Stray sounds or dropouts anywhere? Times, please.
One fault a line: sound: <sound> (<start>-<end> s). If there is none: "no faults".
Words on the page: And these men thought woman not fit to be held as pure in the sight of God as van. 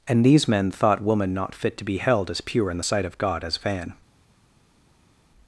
no faults